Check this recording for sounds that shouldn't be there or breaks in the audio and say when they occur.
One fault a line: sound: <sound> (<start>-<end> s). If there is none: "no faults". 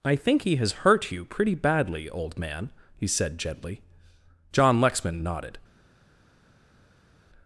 no faults